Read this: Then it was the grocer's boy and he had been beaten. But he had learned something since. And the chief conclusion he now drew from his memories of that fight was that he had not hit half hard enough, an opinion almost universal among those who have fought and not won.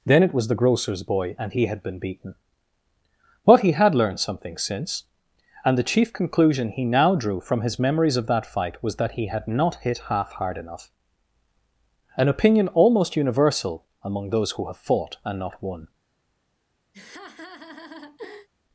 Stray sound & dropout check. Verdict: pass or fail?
fail